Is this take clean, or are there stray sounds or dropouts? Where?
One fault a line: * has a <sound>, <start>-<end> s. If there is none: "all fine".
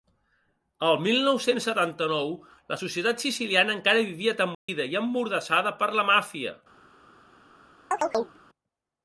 * has a dropout, 4.5-4.7 s
* has a chirp, 7.9-8.4 s